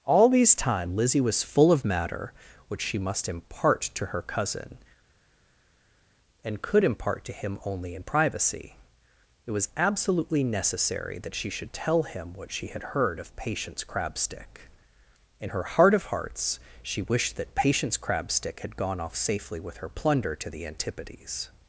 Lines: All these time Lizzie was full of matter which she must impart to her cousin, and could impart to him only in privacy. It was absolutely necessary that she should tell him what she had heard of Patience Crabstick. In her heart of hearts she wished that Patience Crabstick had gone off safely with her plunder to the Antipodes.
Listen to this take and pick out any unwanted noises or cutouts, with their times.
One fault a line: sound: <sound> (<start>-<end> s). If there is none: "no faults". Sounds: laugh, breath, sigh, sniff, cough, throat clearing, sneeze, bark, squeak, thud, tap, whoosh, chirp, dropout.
no faults